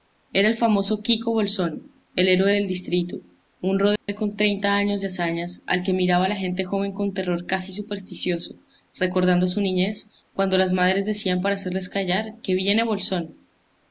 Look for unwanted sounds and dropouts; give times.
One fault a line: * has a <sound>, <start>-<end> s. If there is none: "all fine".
* has a dropout, 4.0-4.1 s